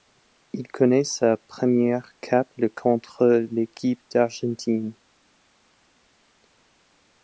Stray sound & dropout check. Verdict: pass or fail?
pass